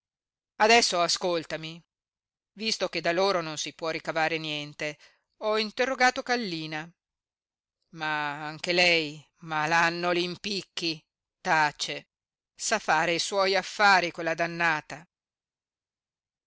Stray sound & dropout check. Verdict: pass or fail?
pass